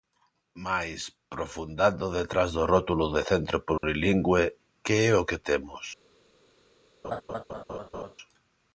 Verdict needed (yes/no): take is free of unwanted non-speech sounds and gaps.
no